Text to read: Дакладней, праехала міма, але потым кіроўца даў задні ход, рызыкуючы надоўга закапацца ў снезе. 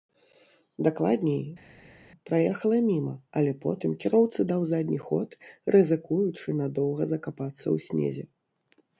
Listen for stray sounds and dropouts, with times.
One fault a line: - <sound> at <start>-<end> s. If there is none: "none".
none